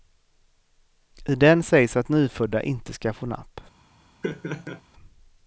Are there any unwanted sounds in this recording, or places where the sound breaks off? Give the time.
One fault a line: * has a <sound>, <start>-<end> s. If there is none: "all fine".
* has a laugh, 4.2-4.8 s